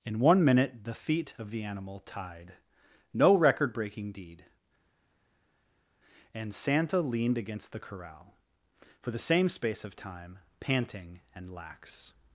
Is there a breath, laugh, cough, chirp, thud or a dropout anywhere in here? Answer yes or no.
no